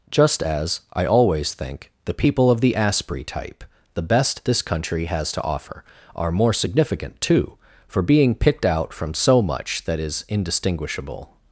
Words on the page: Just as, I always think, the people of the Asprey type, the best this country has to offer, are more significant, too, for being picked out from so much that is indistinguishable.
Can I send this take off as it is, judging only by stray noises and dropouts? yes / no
yes